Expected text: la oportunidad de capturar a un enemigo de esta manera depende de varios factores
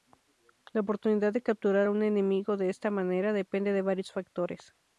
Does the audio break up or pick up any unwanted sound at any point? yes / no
no